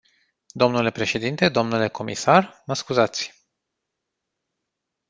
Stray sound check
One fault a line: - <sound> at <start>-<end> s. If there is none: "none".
none